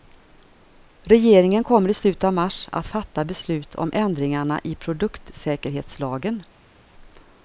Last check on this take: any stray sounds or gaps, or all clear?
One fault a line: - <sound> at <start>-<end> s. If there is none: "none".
none